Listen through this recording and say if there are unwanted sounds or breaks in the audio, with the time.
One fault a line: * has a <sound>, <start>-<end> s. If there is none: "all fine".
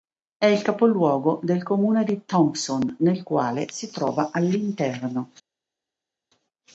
all fine